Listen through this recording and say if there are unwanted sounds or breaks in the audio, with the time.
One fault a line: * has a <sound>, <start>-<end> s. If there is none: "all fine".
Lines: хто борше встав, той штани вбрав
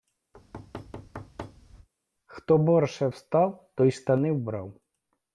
* has a thud, 0.3-1.9 s